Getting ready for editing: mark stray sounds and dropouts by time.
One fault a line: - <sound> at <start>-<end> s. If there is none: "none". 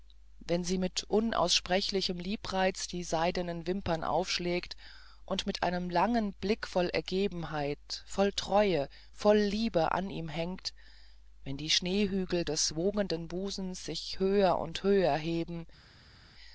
none